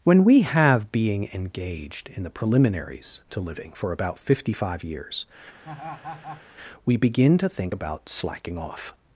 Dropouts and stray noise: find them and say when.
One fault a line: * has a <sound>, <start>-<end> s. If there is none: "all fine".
* has a laugh, 5.6-6.4 s